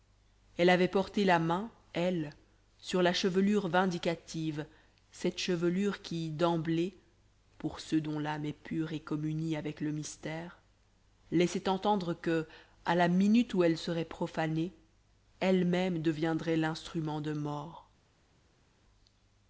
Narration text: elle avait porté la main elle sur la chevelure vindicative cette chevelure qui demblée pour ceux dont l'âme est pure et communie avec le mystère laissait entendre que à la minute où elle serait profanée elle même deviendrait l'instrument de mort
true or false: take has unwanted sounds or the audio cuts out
false